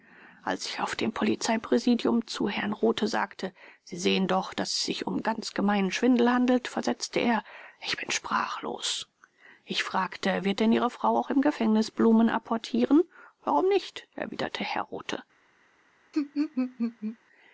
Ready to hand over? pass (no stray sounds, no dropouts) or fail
fail